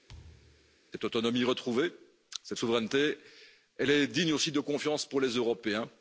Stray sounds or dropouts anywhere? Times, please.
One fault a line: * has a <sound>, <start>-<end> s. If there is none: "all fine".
* has a thud, 0.1-0.8 s